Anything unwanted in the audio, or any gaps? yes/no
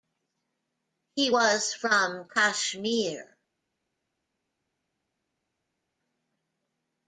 no